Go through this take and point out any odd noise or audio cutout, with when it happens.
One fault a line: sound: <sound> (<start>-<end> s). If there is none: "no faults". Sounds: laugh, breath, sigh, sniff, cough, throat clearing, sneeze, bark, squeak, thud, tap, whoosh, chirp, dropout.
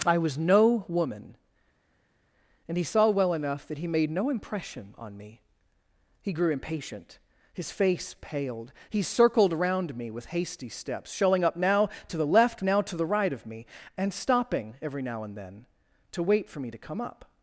no faults